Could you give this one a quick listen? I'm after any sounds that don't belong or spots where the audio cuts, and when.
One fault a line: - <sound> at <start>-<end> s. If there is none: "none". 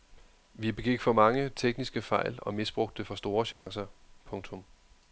- dropout at 3.5-3.7 s